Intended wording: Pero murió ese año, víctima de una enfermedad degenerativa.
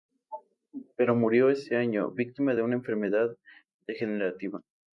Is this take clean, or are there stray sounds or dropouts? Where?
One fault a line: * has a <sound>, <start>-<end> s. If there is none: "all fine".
all fine